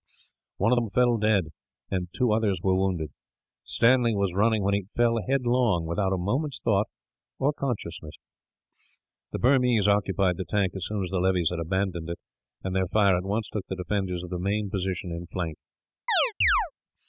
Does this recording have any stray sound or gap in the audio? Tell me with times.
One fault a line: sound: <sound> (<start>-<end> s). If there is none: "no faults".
sound: chirp (16.1-16.7 s)